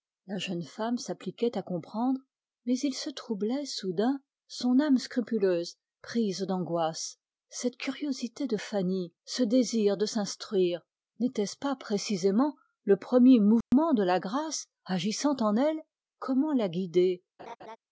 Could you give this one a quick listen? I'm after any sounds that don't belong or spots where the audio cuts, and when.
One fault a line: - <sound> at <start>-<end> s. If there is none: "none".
- dropout at 13.6-13.7 s
- laugh at 17.4-17.8 s